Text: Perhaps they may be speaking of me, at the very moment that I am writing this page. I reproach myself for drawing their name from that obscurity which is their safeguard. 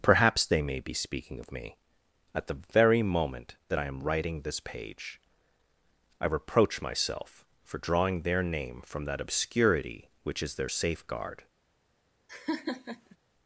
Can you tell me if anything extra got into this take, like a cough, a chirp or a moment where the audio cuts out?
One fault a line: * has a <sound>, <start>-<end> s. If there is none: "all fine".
* has a laugh, 12.3-13.2 s